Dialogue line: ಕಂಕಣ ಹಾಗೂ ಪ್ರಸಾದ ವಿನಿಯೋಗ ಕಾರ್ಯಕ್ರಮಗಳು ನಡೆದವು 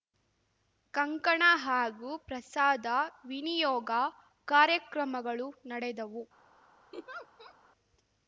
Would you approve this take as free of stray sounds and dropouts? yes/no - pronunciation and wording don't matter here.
no